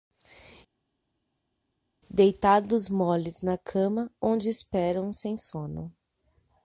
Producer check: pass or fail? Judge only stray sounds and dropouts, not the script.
pass